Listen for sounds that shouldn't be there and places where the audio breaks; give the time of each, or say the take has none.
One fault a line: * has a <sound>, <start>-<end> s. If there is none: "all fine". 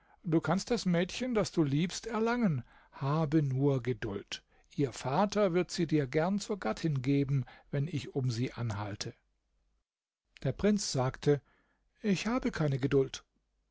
all fine